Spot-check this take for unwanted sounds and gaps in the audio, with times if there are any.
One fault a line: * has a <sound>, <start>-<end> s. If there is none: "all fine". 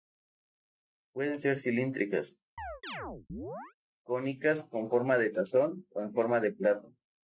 * has a chirp, 2.6-3.7 s